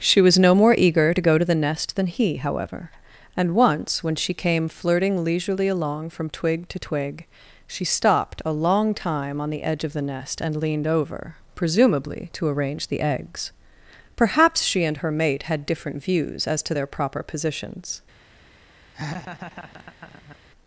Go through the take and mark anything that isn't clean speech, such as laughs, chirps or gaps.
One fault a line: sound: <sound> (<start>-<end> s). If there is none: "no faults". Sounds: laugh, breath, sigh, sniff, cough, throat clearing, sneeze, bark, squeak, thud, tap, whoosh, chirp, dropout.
sound: laugh (18.9-20.4 s)